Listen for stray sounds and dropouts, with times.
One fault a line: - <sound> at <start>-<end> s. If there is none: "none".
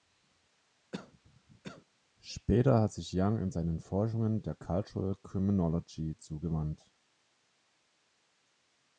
- cough at 0.9-1.8 s